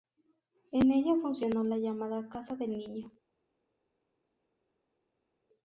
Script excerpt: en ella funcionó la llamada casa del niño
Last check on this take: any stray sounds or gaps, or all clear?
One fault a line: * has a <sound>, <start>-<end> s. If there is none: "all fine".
all fine